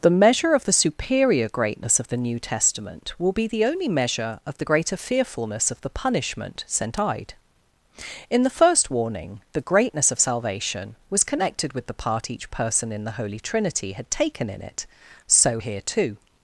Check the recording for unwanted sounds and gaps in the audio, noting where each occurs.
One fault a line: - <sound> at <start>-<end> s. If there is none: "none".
none